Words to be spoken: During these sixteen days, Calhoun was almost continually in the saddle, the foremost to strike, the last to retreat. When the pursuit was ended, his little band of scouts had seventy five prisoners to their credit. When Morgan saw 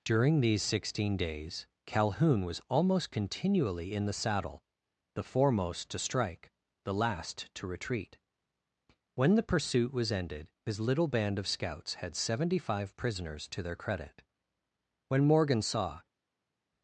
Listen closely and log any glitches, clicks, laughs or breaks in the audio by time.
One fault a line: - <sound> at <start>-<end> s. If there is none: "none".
none